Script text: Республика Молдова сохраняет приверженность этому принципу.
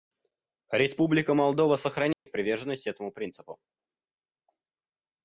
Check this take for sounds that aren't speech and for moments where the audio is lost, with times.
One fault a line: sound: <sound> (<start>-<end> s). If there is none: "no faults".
sound: dropout (2.1-2.3 s)